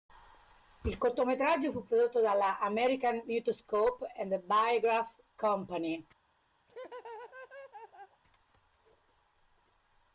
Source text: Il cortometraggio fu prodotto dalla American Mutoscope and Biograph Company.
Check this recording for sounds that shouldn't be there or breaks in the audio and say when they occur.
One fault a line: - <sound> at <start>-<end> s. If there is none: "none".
- laugh at 6.7-8.2 s